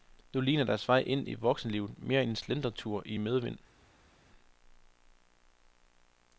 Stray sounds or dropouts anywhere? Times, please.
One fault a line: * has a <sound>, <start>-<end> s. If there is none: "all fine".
all fine